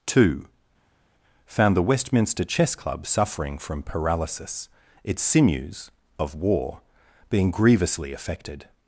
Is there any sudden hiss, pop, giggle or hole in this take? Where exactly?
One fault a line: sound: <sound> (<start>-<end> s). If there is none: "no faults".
no faults